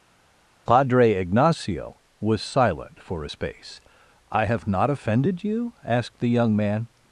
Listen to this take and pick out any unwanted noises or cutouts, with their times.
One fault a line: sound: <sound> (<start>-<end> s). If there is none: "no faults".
no faults